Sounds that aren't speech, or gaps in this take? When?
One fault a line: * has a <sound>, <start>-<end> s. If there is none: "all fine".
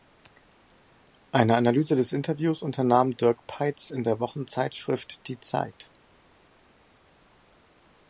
all fine